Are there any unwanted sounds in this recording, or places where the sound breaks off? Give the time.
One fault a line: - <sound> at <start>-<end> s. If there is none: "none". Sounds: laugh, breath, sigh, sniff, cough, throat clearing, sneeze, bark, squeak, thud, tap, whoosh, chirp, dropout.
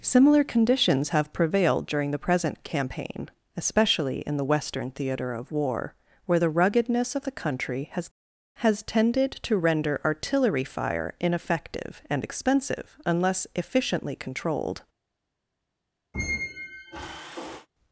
- squeak at 16.1-17.7 s